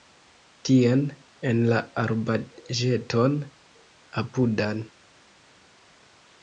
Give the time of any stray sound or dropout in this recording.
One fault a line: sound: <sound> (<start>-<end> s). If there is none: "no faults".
no faults